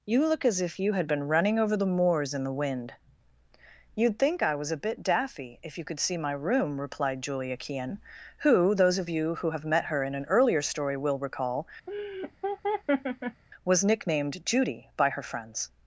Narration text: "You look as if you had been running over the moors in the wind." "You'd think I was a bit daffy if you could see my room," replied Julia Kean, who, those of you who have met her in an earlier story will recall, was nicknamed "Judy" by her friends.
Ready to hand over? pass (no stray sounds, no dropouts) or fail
fail